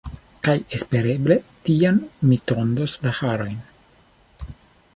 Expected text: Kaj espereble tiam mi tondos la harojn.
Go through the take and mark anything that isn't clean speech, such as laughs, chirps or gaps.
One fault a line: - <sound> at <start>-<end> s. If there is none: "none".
none